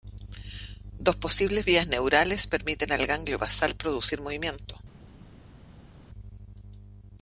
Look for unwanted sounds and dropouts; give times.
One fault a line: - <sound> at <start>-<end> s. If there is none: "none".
none